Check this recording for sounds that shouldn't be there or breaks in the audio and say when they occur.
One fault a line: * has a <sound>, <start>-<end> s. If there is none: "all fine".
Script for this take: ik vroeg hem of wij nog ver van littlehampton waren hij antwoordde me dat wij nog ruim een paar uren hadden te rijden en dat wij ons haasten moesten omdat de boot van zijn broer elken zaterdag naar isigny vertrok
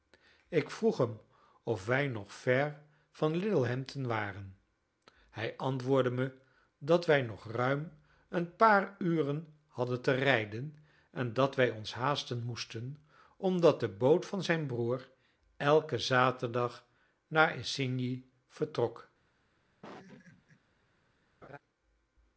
* has a laugh, 19.8-20.6 s
* has a laugh, 21.4-21.6 s